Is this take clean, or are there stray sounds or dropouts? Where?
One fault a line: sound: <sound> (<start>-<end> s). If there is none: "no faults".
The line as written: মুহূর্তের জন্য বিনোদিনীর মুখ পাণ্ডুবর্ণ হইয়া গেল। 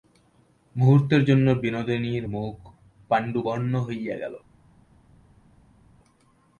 no faults